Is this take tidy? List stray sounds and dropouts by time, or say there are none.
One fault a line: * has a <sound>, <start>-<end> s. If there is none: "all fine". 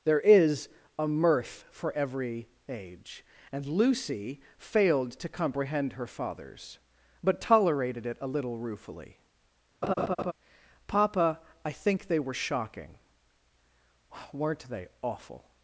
* has a laugh, 9.8-10.3 s